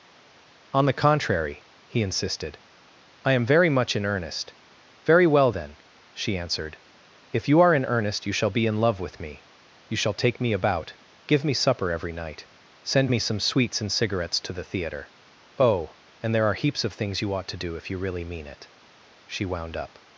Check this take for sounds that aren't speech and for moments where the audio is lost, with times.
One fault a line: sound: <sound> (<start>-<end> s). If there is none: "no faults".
no faults